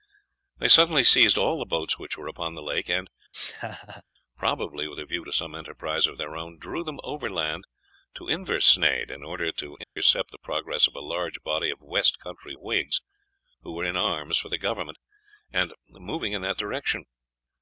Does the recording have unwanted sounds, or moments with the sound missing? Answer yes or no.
yes